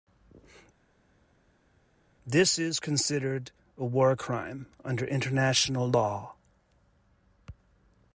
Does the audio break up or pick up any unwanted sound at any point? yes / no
no